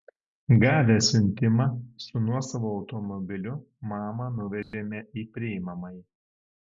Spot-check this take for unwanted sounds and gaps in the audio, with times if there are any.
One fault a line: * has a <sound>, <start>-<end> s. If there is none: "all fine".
* has a dropout, 4.6-4.7 s